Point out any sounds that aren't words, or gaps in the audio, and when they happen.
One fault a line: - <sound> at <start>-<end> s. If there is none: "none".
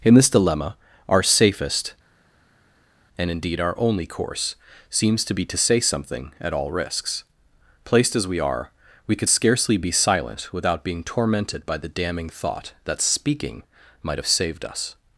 none